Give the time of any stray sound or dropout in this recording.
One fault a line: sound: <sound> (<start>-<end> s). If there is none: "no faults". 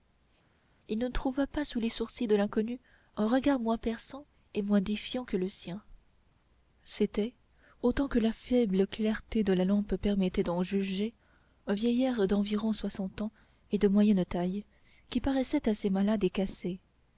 no faults